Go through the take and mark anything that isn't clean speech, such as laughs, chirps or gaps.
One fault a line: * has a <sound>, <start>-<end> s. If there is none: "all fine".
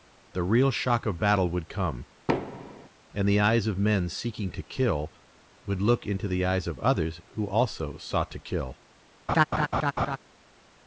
* has a thud, 2.3-2.9 s
* has a laugh, 9.3-10.2 s